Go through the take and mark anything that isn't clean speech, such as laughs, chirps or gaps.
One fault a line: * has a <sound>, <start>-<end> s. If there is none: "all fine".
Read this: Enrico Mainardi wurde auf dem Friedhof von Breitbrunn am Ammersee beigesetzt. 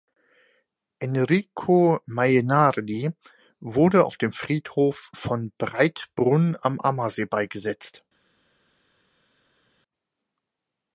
all fine